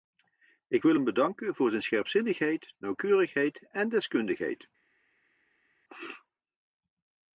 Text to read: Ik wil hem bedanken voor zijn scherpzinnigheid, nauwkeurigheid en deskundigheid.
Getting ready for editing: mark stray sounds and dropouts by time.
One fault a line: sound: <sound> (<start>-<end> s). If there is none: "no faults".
no faults